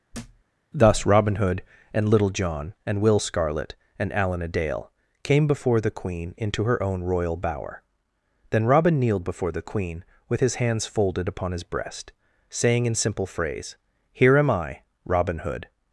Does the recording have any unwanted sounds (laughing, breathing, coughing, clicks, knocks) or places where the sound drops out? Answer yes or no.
yes